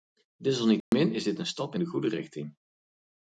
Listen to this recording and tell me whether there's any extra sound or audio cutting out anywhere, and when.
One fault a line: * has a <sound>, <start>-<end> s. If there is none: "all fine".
* has a dropout, 0.8-0.9 s